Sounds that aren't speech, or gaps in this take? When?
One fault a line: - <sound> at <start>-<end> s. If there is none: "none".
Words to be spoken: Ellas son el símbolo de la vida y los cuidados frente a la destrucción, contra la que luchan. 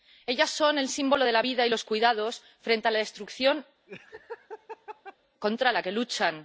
- laugh at 3.9-5.2 s